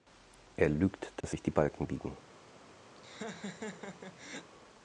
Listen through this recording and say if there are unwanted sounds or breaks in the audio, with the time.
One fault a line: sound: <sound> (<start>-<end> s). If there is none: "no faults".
sound: dropout (1.2-1.2 s)
sound: laugh (3.0-4.5 s)